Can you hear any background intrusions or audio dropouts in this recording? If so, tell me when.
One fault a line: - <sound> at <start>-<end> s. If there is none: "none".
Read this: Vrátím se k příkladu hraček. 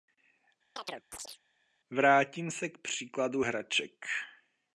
- chirp at 0.8-1.4 s